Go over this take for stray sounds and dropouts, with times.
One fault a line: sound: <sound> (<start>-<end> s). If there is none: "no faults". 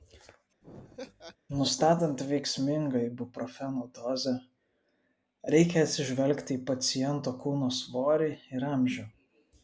sound: laugh (0.6-1.4 s)